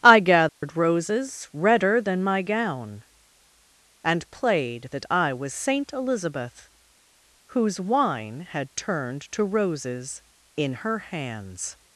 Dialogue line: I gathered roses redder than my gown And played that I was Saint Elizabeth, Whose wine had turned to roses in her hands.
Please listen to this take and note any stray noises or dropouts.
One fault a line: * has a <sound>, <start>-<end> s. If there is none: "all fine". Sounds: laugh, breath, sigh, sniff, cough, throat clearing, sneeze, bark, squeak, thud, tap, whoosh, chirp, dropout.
* has a dropout, 0.5-0.6 s